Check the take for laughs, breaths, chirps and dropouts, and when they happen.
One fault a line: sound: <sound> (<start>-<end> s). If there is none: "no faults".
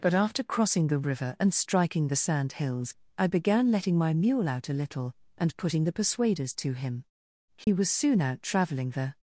sound: dropout (7.6-7.7 s)